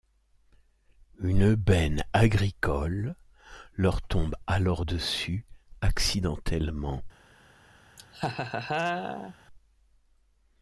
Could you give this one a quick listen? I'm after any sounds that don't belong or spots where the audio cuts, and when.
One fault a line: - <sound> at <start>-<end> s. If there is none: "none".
- laugh at 8.0-9.3 s